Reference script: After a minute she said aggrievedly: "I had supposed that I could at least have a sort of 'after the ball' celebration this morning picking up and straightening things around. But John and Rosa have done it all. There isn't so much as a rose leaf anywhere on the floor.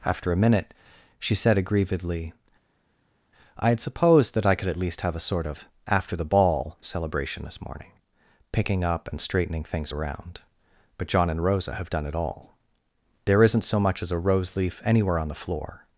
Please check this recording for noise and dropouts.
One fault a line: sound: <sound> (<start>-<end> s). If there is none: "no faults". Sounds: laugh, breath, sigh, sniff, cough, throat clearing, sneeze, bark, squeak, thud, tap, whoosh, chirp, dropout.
no faults